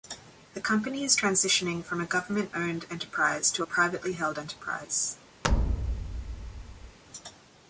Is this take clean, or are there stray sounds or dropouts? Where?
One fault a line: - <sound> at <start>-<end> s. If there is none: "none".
- thud at 5.4-7.0 s